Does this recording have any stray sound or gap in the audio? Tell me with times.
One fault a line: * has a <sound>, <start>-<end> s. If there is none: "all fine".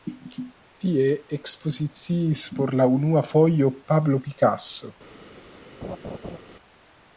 * has a laugh, 5.8-6.4 s